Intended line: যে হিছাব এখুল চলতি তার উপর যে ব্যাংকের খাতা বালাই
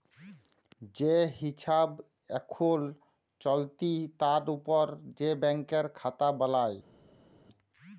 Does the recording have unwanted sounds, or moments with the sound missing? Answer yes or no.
no